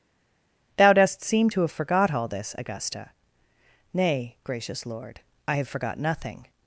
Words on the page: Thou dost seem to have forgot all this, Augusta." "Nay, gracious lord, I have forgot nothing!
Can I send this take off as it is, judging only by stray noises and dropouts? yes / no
yes